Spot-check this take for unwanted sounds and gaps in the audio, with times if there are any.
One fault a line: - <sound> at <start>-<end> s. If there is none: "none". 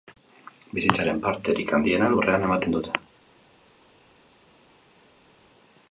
none